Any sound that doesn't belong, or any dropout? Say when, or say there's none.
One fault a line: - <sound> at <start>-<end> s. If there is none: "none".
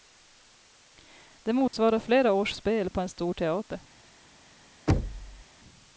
- dropout at 1.7-1.7 s
- thud at 4.9-5.4 s